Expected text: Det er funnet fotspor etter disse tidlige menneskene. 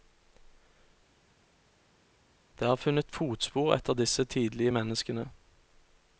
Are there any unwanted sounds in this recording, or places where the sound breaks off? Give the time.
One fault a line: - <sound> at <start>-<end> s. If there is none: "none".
none